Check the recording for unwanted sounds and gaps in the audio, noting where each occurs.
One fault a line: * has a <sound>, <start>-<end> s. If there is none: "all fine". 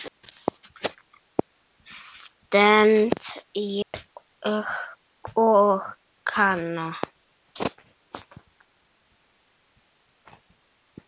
* has a dropout, 3.8-3.9 s